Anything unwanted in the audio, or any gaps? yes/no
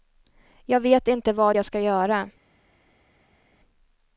no